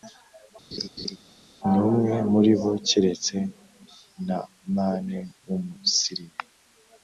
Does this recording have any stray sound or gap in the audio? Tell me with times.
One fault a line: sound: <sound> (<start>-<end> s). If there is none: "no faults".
sound: laugh (0.7-1.2 s)